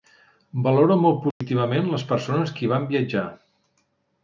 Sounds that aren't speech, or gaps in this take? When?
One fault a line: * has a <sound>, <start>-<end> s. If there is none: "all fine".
* has a dropout, 1.3-1.4 s